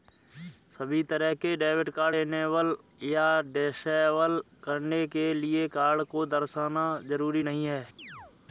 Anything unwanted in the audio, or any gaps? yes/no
yes